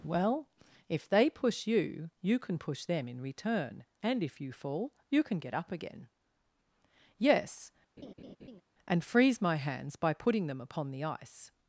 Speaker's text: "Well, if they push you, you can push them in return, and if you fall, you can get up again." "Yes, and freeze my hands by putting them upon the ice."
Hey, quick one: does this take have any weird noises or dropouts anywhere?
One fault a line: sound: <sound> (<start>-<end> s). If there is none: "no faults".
sound: laugh (8.0-8.6 s)